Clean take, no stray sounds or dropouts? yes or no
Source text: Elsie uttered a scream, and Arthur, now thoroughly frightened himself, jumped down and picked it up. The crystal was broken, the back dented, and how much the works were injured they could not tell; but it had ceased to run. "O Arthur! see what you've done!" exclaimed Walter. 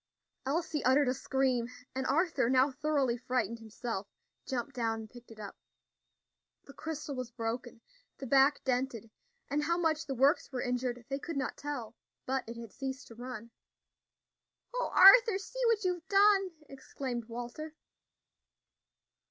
yes